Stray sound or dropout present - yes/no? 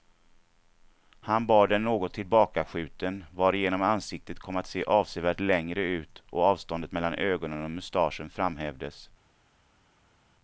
no